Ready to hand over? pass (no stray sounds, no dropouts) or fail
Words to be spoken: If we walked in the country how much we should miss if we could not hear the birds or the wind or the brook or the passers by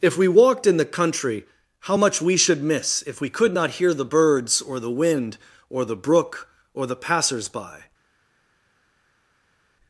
pass